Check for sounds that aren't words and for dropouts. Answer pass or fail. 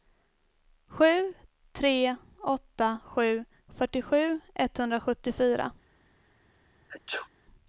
fail